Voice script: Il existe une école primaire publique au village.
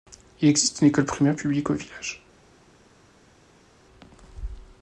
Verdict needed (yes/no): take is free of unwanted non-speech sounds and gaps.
yes